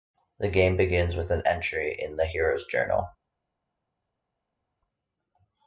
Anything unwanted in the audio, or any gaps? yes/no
no